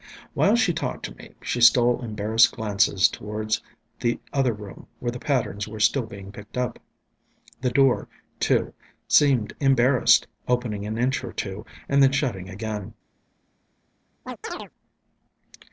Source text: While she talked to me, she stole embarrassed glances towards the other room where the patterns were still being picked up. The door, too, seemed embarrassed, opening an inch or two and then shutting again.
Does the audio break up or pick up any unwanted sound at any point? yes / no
yes